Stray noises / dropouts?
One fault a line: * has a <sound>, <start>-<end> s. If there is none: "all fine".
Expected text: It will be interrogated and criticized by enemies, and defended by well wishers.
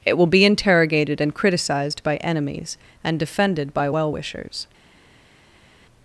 all fine